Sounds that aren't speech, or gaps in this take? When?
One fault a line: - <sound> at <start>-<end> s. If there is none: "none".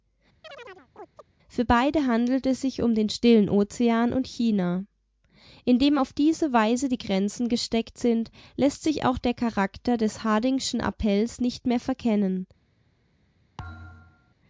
- chirp at 0.4-1.3 s
- thud at 13.6-14.3 s